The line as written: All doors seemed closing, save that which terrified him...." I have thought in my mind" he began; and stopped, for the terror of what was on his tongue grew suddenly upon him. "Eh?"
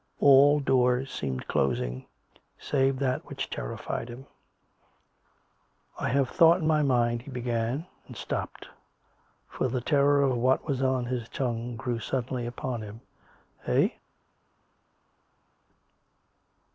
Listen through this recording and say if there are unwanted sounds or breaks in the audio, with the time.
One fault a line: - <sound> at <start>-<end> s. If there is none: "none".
none